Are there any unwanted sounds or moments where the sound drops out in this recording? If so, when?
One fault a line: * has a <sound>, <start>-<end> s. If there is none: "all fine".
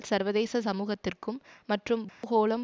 * has a dropout, 2.1-2.2 s